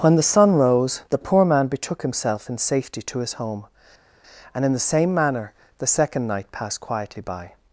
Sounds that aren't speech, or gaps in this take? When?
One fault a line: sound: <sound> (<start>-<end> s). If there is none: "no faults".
no faults